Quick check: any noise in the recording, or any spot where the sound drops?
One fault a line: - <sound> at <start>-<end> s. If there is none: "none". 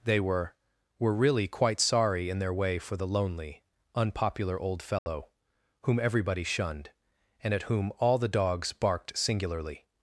- dropout at 5.0-5.1 s